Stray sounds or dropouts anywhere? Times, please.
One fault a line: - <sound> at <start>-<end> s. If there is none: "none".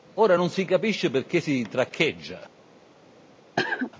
- cough at 3.6-3.9 s